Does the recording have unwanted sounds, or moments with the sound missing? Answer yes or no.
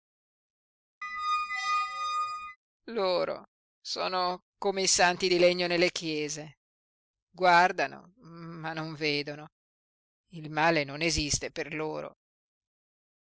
yes